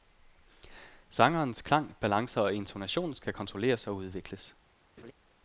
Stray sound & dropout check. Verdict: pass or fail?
fail